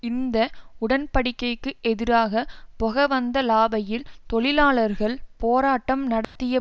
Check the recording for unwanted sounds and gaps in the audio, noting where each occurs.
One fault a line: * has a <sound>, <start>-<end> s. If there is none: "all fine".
* has a dropout, 6.2-6.4 s